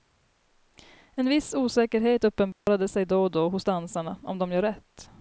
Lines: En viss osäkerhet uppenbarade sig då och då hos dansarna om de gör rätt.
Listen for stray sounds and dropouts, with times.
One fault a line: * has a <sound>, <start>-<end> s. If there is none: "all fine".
* has a dropout, 2.5-2.7 s